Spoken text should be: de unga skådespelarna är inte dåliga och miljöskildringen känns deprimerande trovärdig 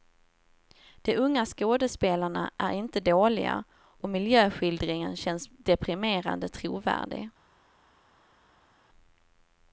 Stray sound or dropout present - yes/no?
no